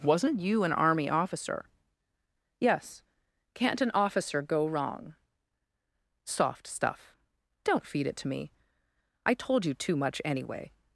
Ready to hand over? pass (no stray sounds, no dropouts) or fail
pass